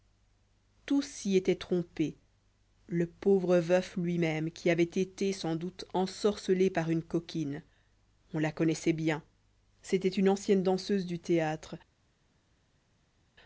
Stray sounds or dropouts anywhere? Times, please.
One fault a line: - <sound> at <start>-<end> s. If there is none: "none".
none